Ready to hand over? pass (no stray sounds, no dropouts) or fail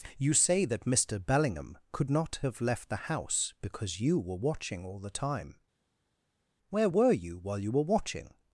pass